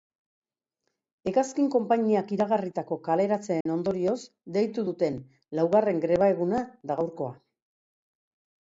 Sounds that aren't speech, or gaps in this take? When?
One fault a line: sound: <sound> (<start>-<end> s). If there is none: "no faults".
sound: dropout (3.6-3.7 s)